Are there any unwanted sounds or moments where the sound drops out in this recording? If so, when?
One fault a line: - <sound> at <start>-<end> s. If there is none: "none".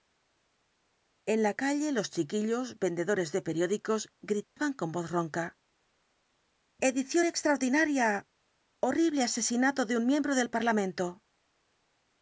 - dropout at 4.4-4.6 s